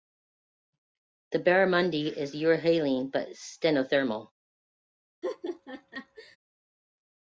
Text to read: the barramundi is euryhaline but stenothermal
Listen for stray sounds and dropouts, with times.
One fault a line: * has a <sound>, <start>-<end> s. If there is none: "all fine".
* has a laugh, 5.2-6.4 s